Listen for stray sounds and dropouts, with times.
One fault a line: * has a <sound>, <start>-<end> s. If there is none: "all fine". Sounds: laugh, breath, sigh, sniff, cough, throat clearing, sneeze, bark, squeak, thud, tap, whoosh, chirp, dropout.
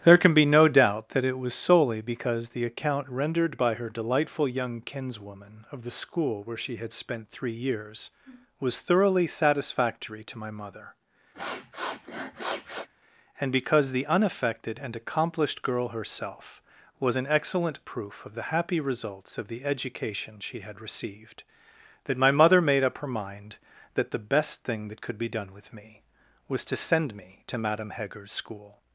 * has a sniff, 11.3-12.9 s